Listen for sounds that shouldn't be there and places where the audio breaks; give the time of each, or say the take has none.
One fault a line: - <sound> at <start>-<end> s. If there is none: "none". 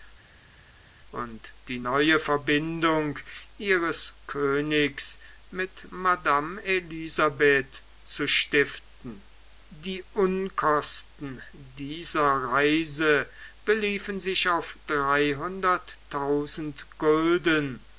none